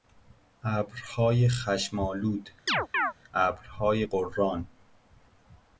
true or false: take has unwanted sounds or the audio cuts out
true